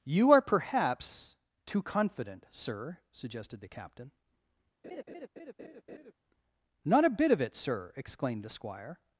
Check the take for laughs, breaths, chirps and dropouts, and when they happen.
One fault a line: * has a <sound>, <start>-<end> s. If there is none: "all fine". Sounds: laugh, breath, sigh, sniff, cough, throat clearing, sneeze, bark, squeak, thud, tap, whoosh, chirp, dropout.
* has a laugh, 4.8-6.1 s